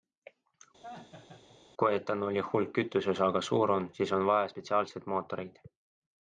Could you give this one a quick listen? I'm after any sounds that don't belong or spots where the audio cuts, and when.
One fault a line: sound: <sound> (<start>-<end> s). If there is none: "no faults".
sound: laugh (0.8-1.6 s)